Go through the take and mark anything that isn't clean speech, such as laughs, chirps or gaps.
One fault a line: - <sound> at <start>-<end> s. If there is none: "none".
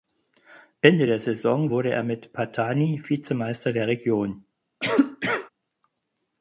- cough at 4.8-5.5 s